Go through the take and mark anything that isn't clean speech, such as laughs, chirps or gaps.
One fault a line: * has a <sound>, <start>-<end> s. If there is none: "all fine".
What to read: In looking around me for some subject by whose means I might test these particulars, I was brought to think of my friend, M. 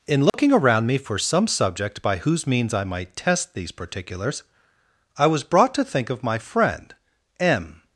* has a dropout, 0.3-0.3 s